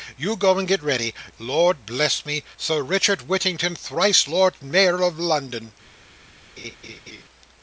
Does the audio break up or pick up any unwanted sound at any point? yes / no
yes